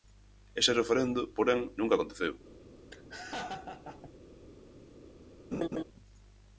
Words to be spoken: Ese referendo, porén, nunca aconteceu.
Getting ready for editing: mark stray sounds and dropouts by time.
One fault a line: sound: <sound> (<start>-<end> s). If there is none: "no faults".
sound: laugh (2.9-4.1 s)
sound: laugh (5.5-5.8 s)